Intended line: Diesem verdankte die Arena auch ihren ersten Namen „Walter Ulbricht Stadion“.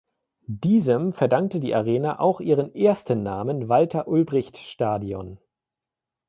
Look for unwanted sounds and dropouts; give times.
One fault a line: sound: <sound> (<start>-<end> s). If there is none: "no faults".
no faults